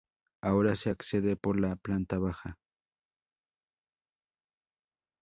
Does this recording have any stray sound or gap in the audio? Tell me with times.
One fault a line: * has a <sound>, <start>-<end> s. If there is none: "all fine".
all fine